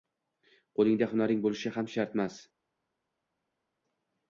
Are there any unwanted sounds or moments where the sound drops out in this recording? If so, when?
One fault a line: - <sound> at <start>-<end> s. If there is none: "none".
none